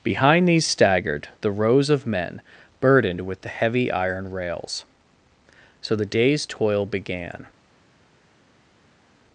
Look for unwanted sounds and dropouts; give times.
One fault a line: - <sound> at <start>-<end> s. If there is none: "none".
none